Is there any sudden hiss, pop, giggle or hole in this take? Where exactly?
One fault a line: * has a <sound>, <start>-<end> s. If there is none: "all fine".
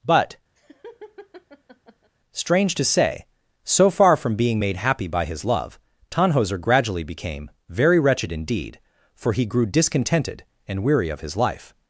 * has a laugh, 0.6-2.1 s